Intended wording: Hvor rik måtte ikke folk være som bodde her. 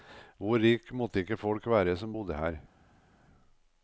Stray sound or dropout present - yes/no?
no